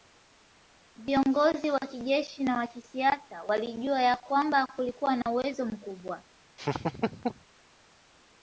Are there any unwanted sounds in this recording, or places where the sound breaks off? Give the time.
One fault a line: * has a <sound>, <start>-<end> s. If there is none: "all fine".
* has a dropout, 5.2-5.3 s
* has a laugh, 6.6-7.4 s